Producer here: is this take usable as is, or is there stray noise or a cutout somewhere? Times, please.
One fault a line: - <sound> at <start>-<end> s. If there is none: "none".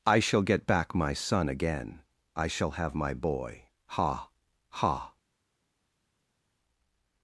none